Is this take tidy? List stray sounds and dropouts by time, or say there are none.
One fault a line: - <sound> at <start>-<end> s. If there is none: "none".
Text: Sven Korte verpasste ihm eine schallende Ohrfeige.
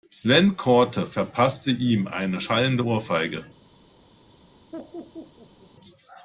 - laugh at 4.7-5.7 s